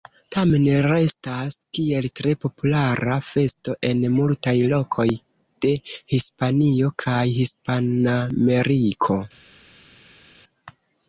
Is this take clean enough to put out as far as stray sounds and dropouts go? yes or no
yes